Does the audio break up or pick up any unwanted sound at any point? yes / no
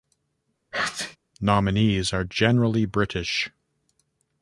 yes